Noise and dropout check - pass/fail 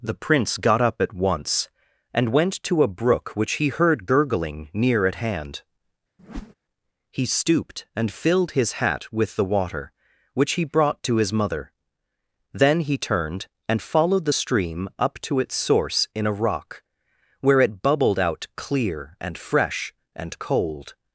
fail